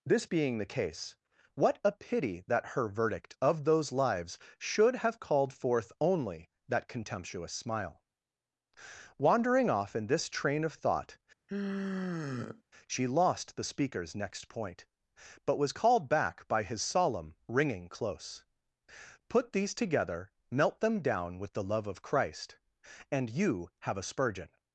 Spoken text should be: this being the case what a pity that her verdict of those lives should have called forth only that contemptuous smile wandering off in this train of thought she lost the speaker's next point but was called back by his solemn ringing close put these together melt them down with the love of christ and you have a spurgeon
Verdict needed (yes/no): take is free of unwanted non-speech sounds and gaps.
no